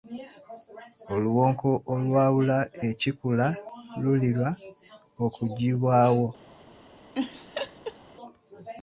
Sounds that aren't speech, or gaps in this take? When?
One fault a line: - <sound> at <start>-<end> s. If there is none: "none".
- laugh at 7.1-8.0 s